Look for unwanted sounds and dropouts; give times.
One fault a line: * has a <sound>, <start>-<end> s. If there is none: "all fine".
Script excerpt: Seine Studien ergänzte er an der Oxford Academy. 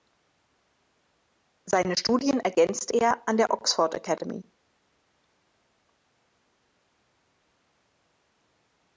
all fine